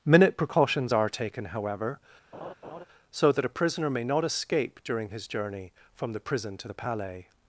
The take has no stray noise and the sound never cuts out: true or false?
false